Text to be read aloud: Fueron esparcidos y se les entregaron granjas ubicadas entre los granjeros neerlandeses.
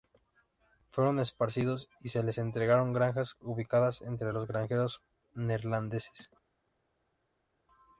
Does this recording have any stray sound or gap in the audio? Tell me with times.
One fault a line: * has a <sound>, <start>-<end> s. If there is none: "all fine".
all fine